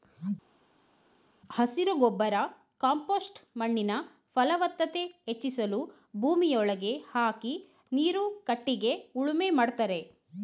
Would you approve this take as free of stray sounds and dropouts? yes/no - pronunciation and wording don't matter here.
yes